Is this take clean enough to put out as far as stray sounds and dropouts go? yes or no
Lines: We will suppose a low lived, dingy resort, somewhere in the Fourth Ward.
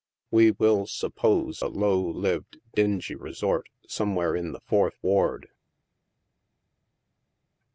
yes